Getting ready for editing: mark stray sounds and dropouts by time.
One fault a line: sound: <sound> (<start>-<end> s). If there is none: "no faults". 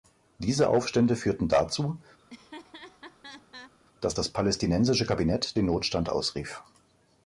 sound: laugh (2.2-3.7 s)